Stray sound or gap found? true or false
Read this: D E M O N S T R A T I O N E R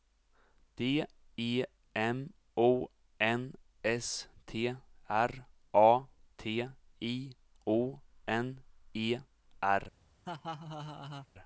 true